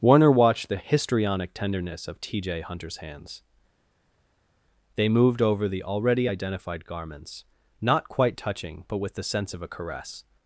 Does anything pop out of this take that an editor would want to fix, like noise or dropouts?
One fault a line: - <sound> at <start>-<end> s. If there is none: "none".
none